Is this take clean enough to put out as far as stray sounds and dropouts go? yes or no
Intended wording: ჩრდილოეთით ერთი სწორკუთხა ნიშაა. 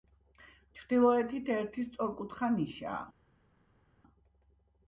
yes